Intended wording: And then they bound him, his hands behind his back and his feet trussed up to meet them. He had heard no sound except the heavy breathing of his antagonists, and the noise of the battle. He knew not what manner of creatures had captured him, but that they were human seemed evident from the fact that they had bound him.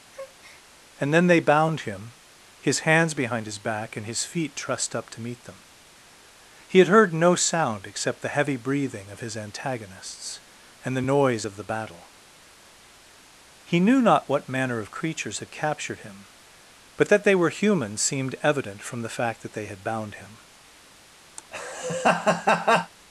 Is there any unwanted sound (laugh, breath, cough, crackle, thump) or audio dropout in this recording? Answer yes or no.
yes